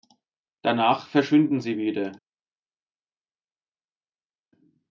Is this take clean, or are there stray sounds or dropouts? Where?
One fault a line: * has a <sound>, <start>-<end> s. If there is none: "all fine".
all fine